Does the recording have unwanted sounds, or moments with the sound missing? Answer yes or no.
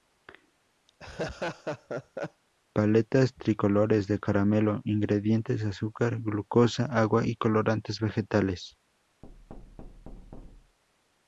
yes